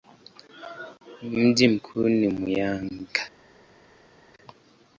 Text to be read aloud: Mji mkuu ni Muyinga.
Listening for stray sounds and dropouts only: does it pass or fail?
pass